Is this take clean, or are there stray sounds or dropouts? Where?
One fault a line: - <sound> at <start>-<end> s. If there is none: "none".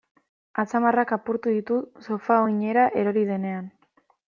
none